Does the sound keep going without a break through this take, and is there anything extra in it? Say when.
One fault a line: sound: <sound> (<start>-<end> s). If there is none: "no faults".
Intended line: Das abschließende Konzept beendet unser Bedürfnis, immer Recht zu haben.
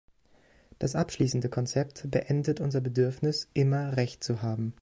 no faults